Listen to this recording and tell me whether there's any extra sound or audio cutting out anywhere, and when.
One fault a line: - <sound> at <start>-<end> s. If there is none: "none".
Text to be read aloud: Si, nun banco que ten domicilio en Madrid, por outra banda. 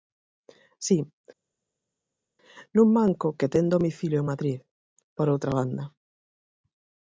none